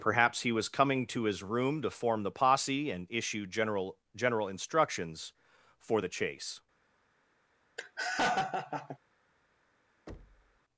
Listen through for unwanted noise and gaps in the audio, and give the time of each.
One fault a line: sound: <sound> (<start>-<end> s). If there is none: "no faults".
sound: laugh (7.8-9.0 s)
sound: thud (10.1-10.6 s)